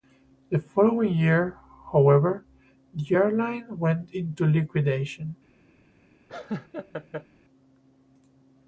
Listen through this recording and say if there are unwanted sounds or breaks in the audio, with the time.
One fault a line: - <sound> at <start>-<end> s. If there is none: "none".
- laugh at 6.3-7.3 s